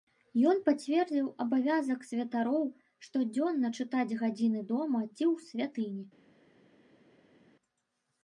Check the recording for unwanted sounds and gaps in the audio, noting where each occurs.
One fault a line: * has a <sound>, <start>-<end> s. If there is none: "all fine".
all fine